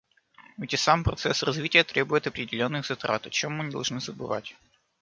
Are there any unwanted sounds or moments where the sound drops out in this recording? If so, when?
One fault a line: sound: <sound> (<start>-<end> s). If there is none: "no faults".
no faults